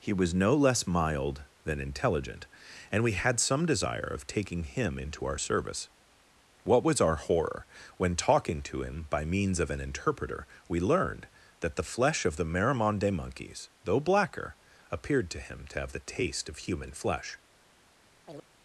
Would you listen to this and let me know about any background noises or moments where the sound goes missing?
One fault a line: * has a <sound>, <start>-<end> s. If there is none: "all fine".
* has a chirp, 18.3-18.5 s